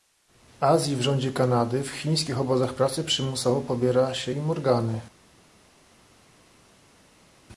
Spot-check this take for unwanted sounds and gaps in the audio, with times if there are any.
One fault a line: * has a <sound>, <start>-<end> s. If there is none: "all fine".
all fine